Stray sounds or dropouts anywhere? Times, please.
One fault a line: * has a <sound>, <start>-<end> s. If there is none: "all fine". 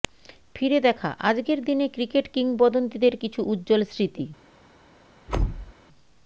* has a thud, 5.3-5.7 s